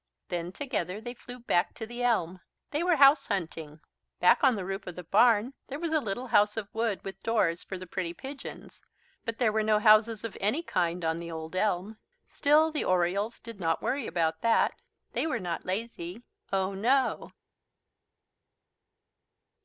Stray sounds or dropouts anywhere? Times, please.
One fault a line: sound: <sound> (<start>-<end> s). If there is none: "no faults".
no faults